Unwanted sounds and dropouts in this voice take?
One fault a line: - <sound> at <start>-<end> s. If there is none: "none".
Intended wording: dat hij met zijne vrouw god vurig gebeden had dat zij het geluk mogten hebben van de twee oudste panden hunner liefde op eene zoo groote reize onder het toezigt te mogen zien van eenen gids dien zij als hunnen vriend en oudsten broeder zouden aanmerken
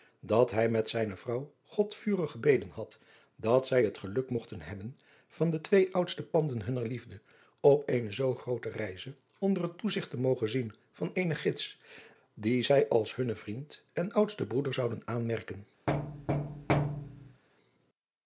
- thud at 15.9-17.4 s